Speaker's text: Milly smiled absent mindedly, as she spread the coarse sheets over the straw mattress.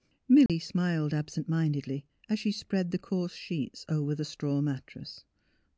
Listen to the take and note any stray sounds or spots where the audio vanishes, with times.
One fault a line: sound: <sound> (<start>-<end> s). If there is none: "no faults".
sound: dropout (0.5-0.5 s)